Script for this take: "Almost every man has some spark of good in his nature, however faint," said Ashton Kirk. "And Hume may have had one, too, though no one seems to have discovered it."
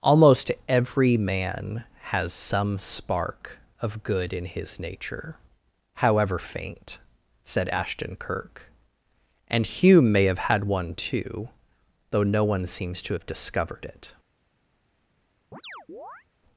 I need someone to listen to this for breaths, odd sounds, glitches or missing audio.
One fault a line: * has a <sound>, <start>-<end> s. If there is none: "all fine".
* has a chirp, 15.5-16.3 s